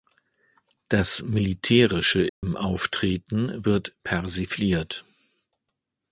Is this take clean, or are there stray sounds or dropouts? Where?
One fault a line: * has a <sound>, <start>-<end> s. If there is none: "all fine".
* has a dropout, 2.3-2.4 s